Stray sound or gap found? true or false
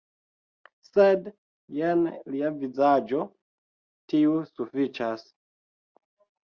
false